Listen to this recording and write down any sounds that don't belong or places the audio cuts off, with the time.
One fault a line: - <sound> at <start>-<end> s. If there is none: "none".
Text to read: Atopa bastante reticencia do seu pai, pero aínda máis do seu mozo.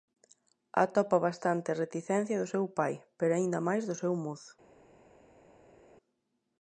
none